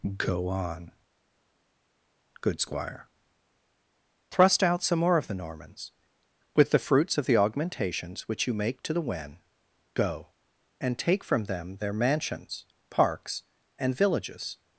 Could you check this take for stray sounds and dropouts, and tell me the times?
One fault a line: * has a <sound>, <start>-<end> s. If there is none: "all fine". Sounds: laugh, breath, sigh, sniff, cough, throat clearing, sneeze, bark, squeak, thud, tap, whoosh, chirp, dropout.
all fine